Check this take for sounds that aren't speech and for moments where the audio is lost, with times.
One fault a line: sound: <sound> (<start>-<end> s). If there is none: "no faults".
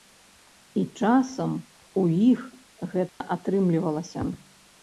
sound: dropout (3.1-3.2 s)